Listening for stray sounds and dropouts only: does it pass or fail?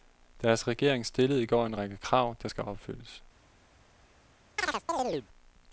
fail